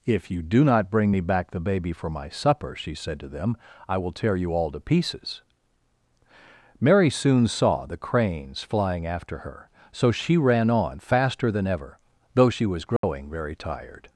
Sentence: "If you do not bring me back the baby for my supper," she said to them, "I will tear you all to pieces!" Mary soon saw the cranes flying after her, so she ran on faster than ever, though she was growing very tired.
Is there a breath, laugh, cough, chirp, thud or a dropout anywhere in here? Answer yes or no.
yes